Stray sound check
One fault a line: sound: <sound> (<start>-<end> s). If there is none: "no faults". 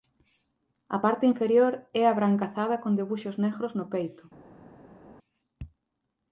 no faults